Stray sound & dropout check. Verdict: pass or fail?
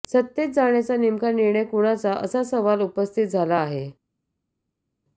pass